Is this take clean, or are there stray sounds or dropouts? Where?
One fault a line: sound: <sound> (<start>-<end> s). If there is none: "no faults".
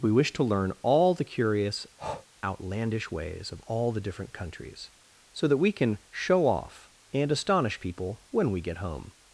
sound: breath (2.0-2.3 s)